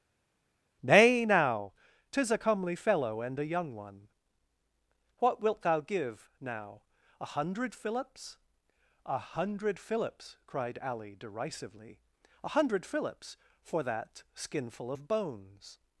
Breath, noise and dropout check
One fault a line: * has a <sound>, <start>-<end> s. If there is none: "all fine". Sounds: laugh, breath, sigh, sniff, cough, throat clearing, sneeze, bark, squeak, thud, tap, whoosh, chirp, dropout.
all fine